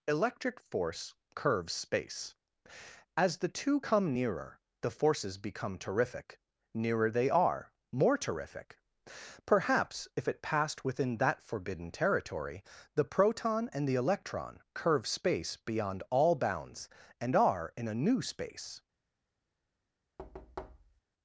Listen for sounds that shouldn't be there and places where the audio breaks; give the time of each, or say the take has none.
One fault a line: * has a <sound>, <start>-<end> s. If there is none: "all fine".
* has a thud, 20.2-21.0 s